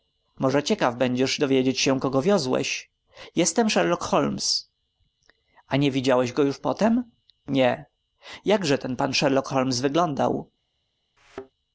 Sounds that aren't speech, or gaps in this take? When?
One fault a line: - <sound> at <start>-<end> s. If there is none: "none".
- thud at 11.2-11.5 s